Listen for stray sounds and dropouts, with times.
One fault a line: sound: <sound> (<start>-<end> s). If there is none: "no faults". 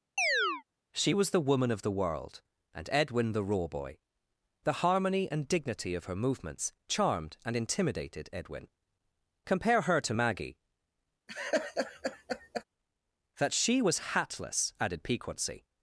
sound: chirp (0.2-0.6 s)
sound: laugh (11.3-12.6 s)